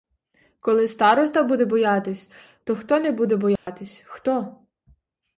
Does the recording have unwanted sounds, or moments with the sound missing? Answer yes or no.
yes